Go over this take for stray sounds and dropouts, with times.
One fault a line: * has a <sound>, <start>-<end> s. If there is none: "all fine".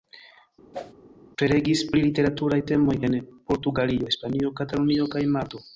* has a whoosh, 0.7-0.9 s